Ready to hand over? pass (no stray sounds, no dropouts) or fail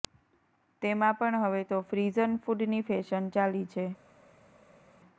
pass